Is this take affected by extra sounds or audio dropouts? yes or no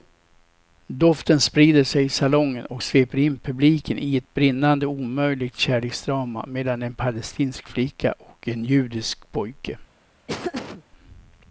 yes